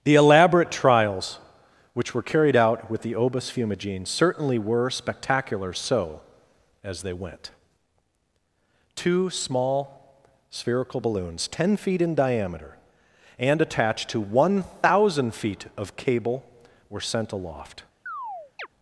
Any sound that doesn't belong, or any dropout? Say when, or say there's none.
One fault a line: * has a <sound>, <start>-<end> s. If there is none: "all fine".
* has a chirp, 18.1-18.7 s